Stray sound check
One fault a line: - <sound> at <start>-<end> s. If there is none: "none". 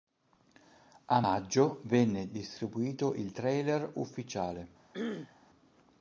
- throat clearing at 4.9-5.5 s